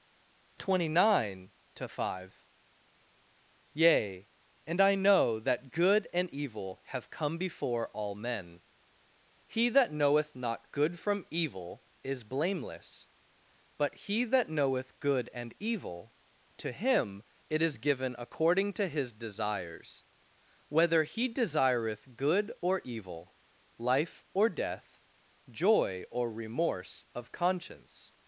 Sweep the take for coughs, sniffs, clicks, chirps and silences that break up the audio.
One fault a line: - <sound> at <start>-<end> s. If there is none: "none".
none